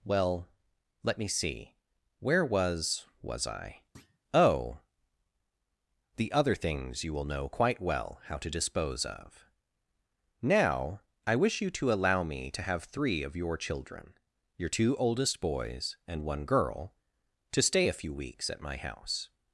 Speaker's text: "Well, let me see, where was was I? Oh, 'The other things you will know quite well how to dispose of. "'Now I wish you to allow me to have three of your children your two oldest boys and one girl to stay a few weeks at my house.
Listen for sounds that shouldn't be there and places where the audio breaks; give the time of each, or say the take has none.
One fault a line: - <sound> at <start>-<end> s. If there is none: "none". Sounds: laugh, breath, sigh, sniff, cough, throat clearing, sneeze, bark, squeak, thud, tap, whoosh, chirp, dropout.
- thud at 3.9-4.2 s